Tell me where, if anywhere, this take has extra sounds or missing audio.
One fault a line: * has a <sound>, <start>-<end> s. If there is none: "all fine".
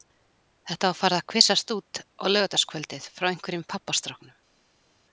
all fine